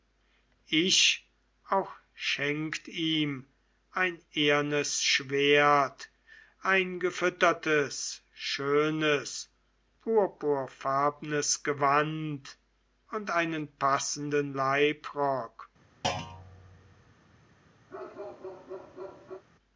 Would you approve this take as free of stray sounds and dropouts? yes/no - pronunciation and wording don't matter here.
no